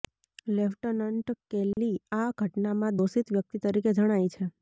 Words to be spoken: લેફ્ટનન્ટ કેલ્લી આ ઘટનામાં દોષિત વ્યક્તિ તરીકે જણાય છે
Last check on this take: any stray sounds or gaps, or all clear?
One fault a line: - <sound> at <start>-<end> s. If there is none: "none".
- dropout at 1.7-1.8 s